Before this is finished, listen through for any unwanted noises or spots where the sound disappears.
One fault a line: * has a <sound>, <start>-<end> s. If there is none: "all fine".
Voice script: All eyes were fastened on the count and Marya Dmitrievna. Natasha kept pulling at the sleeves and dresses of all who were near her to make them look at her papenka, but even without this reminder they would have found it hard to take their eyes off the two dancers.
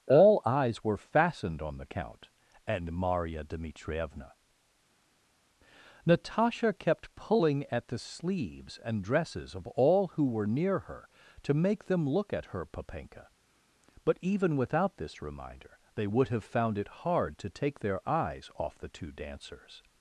all fine